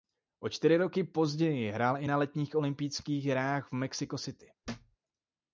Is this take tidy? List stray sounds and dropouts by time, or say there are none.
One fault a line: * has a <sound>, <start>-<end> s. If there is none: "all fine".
* has a thud, 4.6-5.0 s